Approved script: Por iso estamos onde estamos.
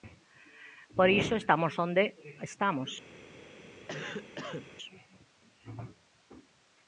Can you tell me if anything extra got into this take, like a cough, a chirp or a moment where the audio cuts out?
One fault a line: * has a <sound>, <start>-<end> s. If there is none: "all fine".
* has a cough, 3.9-4.7 s